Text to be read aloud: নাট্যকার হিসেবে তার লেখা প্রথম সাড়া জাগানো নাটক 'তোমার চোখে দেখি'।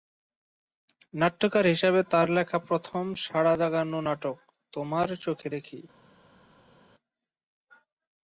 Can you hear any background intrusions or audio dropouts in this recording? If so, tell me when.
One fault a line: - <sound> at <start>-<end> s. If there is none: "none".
none